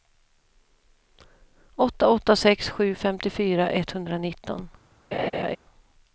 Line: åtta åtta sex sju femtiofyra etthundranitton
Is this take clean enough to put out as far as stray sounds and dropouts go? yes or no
no